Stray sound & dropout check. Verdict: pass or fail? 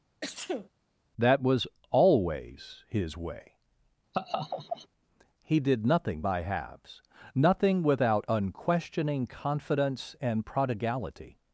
fail